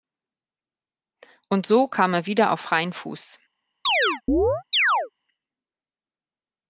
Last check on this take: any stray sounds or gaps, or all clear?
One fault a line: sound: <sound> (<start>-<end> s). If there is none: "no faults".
sound: chirp (3.9-5.1 s)